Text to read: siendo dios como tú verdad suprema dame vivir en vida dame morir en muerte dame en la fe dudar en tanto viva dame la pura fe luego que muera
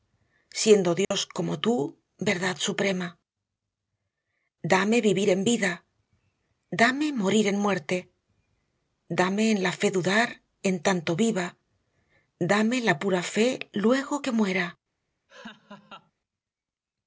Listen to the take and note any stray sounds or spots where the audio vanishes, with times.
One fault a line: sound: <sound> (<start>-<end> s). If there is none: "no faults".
sound: dropout (1.0-1.1 s)
sound: laugh (15.3-16.1 s)